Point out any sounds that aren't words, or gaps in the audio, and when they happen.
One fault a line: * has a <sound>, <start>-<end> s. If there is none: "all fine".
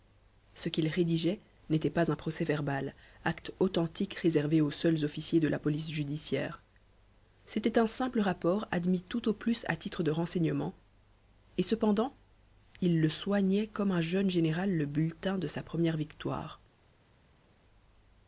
all fine